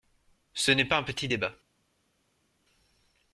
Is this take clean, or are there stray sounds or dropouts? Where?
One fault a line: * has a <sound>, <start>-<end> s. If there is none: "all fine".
all fine